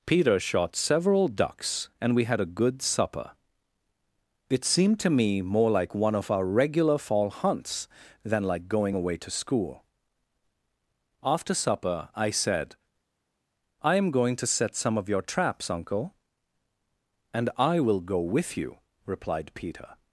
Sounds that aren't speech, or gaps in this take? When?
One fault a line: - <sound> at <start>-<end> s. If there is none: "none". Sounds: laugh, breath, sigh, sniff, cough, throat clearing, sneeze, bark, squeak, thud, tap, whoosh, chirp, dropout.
none